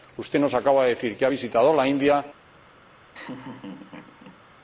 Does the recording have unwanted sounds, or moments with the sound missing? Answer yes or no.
yes